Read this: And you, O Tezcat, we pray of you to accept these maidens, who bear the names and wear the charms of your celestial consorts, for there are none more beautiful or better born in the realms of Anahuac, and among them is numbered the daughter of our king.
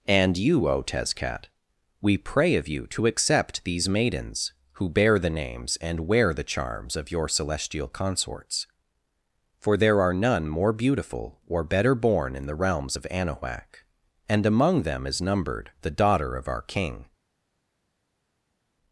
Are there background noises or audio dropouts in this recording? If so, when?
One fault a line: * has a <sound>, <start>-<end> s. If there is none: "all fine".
all fine